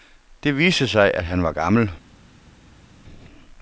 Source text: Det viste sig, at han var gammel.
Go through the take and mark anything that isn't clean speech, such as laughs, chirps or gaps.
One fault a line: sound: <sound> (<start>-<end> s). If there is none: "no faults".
no faults